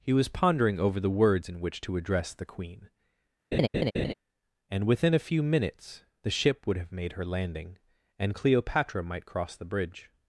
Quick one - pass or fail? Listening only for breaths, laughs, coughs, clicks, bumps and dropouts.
fail